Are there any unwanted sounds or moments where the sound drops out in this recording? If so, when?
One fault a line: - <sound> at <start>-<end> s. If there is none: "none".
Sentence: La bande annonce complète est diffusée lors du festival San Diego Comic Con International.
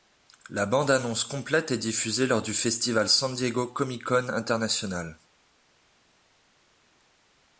none